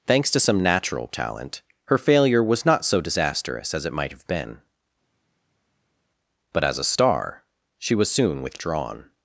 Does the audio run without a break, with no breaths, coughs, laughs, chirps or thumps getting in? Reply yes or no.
yes